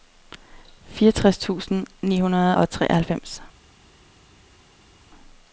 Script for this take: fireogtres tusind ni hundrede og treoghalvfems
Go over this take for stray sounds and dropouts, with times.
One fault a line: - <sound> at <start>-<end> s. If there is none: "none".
none